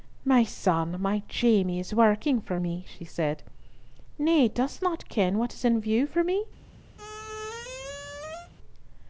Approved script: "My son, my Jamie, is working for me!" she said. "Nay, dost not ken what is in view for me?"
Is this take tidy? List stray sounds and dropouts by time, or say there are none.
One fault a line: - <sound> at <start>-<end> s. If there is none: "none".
- squeak at 7.0-8.5 s